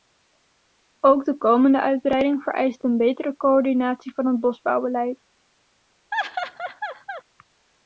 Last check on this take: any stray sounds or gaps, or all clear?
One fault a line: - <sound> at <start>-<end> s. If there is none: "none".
- laugh at 6.1-7.2 s